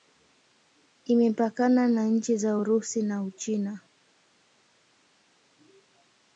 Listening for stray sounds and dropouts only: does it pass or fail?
pass